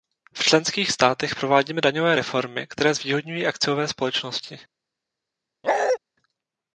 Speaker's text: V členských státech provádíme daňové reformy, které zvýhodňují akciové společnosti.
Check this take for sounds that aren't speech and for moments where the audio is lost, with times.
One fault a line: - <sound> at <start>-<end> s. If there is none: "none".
- bark at 5.6-6.0 s